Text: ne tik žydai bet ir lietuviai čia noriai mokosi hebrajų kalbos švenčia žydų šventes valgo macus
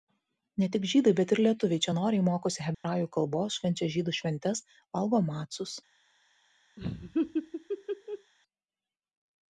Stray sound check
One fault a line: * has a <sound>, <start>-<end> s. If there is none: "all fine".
* has a dropout, 2.7-2.8 s
* has a laugh, 6.8-8.3 s